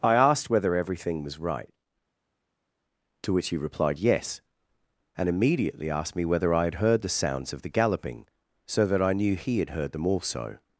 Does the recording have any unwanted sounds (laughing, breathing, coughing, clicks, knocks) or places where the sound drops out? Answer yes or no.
no